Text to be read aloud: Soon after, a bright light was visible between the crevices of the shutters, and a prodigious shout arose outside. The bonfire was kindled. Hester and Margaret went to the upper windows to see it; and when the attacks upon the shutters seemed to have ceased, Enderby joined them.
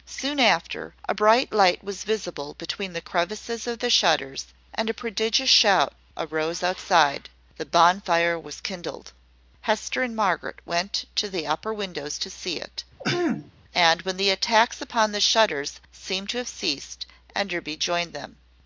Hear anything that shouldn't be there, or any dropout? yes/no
yes